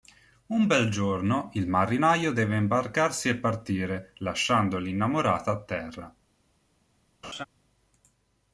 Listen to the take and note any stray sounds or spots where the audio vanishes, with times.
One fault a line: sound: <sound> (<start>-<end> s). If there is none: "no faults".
sound: laugh (7.2-7.4 s)